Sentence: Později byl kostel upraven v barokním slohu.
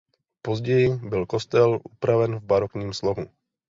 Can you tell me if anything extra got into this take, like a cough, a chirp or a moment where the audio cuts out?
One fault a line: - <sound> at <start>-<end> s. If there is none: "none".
none